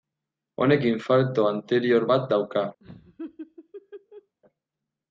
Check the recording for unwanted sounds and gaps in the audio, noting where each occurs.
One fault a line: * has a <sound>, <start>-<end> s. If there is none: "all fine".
* has a laugh, 2.8-4.3 s